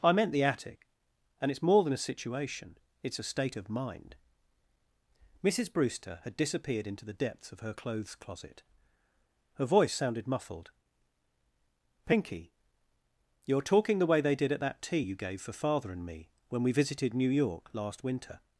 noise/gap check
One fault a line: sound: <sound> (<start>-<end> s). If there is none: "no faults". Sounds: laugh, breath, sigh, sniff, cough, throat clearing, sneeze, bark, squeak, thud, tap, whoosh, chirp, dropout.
no faults